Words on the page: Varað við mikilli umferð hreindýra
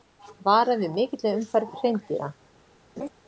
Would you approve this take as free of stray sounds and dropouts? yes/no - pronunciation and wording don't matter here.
no